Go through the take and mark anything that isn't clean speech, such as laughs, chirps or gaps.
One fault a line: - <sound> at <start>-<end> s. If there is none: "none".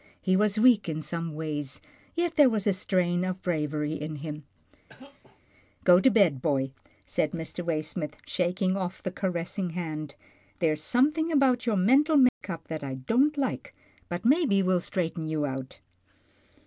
- cough at 4.9-5.4 s
- dropout at 12.3-12.4 s